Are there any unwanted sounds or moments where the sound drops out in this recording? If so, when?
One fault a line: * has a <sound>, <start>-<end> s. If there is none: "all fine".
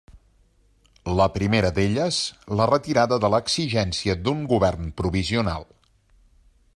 all fine